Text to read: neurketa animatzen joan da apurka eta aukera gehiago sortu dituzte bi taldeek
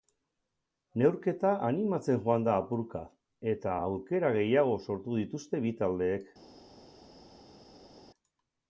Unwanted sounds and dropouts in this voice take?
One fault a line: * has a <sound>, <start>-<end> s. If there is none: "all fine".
all fine